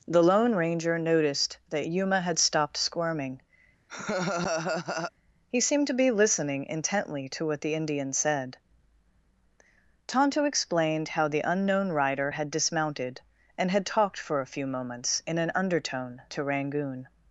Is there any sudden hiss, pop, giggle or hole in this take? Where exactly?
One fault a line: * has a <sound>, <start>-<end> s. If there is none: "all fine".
* has a laugh, 3.9-5.1 s